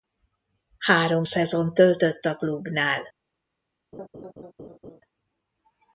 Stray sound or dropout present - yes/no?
yes